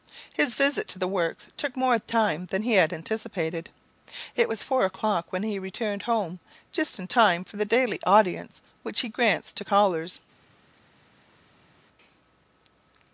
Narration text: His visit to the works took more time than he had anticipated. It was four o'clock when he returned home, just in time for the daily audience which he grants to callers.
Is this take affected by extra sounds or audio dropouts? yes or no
no